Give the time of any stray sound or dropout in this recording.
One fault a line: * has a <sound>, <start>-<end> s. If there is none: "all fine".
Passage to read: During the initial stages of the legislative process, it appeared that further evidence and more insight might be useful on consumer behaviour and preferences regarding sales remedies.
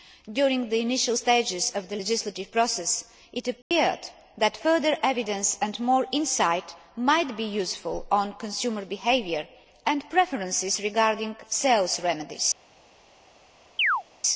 * has a dropout, 3.6-3.7 s
* has a chirp, 13.8-14.0 s